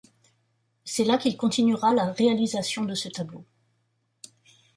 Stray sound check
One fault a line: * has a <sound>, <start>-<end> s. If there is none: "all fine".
all fine